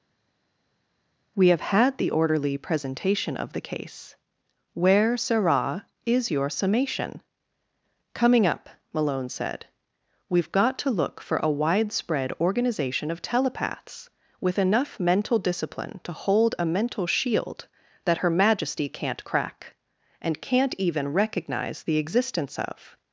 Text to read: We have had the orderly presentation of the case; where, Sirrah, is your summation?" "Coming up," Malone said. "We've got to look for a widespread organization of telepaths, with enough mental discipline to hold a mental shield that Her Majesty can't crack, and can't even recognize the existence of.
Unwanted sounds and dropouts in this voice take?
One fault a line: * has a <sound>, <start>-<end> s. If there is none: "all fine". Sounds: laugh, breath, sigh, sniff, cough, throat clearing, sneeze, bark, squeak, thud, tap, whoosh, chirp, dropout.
all fine